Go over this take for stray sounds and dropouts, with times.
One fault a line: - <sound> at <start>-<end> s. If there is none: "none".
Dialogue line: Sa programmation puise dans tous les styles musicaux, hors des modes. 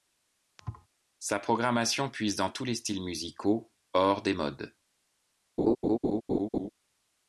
- thud at 0.6-0.9 s
- laugh at 5.6-6.7 s